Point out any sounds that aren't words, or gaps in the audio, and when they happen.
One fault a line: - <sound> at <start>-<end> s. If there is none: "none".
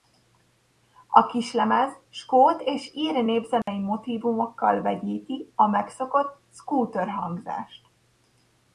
- dropout at 3.6-3.7 s